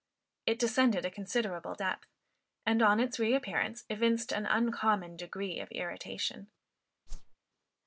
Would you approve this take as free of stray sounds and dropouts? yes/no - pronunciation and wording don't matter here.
no